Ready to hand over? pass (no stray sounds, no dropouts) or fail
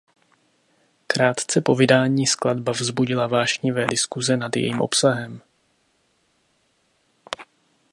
pass